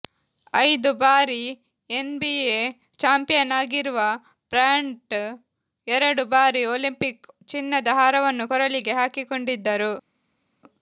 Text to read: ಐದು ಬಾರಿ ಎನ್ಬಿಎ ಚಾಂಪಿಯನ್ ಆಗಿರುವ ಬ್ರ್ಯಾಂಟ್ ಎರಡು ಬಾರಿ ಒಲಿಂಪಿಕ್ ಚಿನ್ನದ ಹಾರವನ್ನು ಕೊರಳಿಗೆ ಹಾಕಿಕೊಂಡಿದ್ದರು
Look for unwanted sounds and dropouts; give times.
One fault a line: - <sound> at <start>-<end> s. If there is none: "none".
none